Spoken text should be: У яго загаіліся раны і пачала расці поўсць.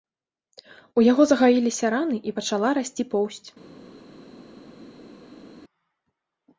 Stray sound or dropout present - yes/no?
no